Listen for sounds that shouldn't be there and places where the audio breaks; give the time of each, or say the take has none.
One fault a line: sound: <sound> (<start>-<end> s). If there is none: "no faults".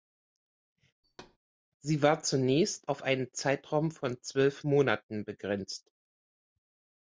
sound: thud (1.0-1.4 s)